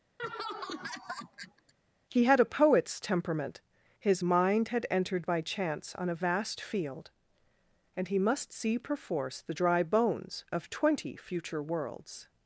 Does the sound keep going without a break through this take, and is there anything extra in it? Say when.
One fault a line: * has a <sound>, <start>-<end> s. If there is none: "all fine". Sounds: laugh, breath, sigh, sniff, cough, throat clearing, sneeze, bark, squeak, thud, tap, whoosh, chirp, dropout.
* has a laugh, 0.2-1.7 s